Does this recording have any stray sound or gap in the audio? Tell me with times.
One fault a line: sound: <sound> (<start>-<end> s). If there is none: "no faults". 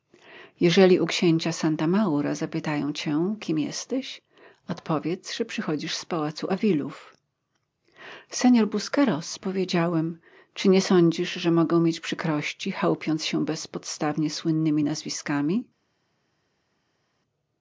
no faults